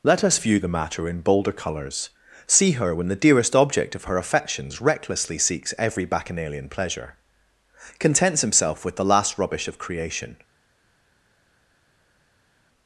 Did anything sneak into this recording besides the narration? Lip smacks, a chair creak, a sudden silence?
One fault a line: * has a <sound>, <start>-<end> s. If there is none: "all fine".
all fine